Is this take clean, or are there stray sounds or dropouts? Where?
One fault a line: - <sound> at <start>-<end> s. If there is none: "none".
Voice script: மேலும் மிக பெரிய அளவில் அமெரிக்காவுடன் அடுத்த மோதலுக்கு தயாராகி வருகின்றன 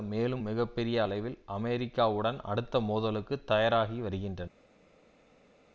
none